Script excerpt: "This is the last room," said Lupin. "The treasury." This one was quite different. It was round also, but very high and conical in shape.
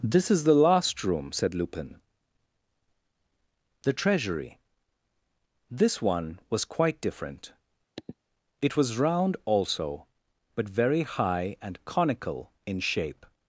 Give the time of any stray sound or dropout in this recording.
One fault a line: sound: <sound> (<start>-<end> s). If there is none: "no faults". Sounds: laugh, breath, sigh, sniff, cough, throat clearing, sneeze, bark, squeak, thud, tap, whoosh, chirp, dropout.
sound: sniff (8.0-8.2 s)